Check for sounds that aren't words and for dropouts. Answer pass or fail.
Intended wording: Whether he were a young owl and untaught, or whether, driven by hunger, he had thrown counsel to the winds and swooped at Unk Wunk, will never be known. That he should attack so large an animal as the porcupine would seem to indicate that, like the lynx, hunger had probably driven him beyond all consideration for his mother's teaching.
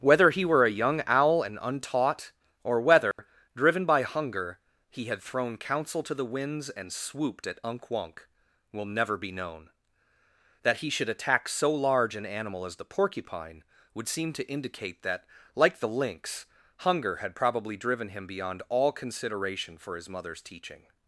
fail